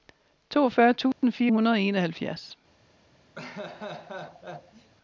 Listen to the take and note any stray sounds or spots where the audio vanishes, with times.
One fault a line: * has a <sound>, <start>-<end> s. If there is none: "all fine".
* has a dropout, 1.1-1.2 s
* has a laugh, 3.4-4.9 s